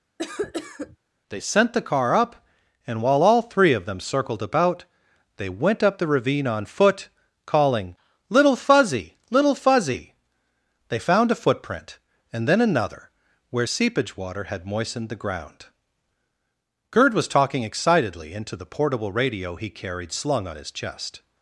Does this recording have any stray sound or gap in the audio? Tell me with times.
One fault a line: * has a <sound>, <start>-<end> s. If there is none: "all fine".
* has a cough, 0.2-1.0 s